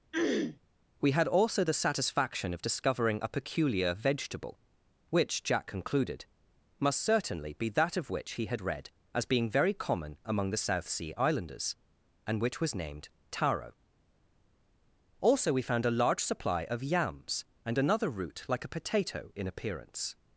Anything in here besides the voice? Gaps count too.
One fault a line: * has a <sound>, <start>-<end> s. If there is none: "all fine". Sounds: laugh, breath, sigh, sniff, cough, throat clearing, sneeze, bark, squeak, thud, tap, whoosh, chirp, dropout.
* has a throat clearing, 0.1-0.6 s